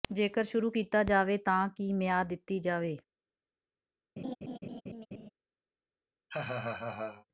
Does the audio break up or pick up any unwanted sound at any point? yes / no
yes